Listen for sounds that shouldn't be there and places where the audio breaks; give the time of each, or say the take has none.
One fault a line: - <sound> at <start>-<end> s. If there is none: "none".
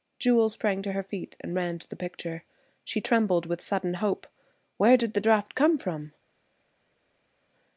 none